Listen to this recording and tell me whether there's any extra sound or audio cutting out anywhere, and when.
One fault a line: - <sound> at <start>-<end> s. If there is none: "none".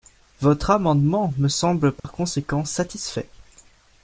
- dropout at 2.0-2.0 s